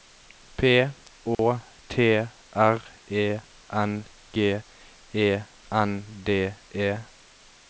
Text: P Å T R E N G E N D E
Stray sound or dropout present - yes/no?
yes